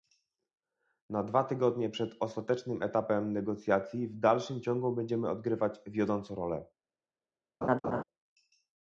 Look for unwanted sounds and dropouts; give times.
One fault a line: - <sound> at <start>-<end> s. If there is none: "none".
- laugh at 7.6-8.0 s